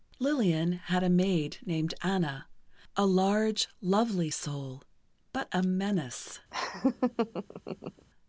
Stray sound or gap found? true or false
true